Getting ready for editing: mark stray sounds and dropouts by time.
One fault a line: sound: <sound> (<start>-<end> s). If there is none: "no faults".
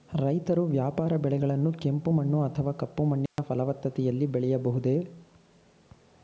sound: dropout (3.3-3.4 s)